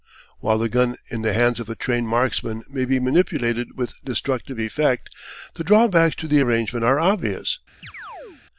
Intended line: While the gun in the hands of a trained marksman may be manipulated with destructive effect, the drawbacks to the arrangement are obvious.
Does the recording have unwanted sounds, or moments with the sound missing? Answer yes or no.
yes